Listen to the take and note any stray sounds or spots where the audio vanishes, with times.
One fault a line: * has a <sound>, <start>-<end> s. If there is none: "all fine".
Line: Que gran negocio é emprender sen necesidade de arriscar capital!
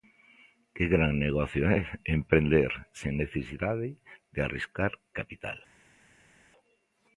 all fine